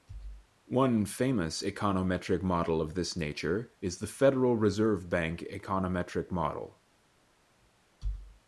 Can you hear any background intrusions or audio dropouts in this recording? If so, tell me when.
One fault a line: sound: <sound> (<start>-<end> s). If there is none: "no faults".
no faults